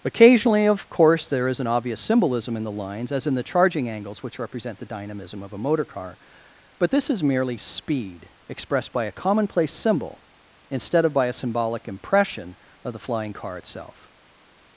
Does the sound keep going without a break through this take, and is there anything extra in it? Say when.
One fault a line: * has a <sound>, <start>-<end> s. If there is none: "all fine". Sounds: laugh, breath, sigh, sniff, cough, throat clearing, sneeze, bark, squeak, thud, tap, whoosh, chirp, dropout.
all fine